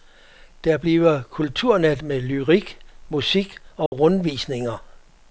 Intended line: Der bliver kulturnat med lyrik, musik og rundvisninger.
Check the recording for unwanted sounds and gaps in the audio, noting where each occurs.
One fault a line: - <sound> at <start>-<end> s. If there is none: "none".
- dropout at 3.9-3.9 s